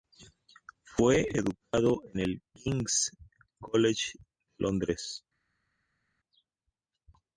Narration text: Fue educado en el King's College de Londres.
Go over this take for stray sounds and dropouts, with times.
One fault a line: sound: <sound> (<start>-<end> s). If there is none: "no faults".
no faults